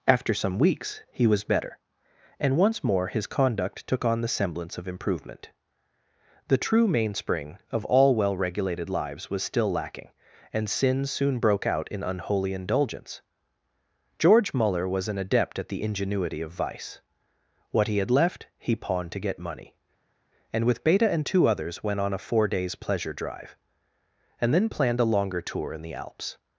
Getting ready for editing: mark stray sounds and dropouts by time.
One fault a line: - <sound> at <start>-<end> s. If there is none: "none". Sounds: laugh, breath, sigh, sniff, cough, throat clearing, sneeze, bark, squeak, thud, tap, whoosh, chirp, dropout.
none